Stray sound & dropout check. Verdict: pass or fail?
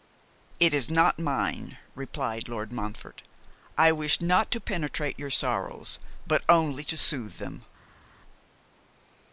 pass